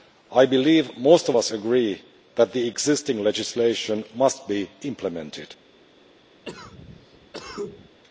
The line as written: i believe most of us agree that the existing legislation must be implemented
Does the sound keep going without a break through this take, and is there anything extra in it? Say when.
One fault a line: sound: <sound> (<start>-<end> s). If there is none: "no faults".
sound: cough (6.4-8.0 s)